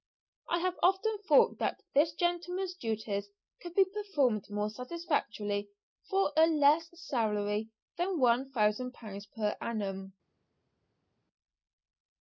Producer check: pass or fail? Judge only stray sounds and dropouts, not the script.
pass